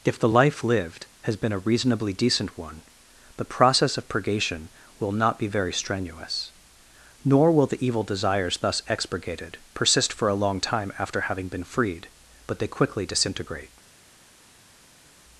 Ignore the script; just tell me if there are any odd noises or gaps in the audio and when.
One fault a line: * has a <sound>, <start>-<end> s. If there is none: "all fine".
all fine